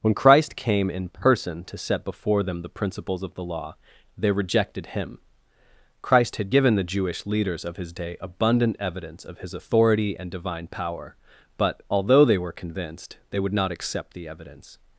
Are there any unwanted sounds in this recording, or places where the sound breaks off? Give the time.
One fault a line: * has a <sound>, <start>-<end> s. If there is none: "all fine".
all fine